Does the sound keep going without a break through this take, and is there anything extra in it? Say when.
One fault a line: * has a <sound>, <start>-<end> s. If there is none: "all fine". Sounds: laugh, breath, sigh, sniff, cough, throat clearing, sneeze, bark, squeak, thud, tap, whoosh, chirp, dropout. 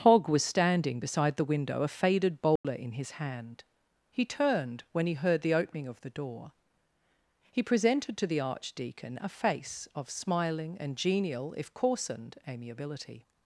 * has a dropout, 2.6-2.6 s